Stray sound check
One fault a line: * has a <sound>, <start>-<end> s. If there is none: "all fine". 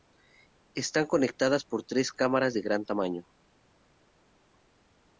all fine